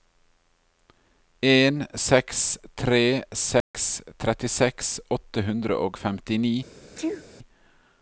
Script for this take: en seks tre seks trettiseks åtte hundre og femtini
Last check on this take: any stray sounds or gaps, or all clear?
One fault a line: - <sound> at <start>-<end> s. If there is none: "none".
- dropout at 3.6-3.7 s
- sneeze at 7.0-7.2 s